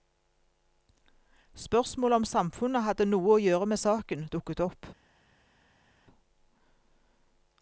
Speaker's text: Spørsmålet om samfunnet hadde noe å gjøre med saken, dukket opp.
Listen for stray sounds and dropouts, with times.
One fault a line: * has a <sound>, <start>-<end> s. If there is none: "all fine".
all fine